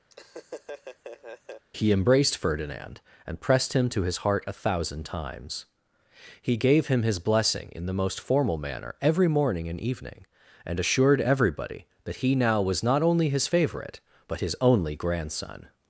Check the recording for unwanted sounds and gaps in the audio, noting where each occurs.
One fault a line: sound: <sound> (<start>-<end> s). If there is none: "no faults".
sound: laugh (0.1-1.7 s)